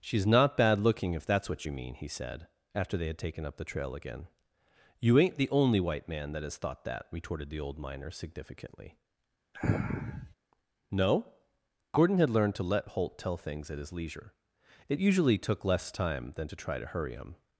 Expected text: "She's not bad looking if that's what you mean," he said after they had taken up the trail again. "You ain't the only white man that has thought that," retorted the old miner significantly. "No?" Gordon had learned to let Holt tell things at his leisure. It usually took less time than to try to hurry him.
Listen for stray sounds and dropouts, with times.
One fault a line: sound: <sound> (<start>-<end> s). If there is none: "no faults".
sound: sniff (9.5-10.3 s)